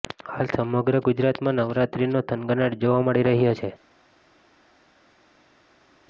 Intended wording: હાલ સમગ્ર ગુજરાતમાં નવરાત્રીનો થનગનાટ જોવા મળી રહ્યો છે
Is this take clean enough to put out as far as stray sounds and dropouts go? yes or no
yes